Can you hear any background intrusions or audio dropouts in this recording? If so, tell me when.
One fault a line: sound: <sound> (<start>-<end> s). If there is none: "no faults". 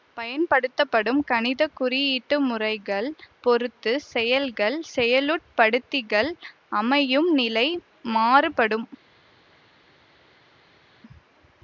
no faults